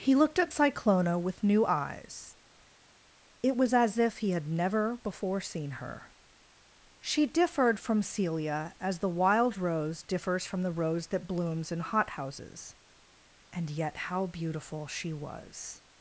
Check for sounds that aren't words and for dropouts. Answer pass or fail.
pass